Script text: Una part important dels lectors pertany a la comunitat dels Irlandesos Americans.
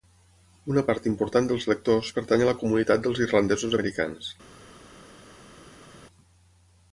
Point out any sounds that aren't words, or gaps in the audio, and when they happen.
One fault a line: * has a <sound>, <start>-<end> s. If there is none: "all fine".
all fine